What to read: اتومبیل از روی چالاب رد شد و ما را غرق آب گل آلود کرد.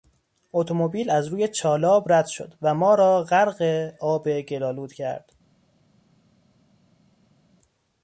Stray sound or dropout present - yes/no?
no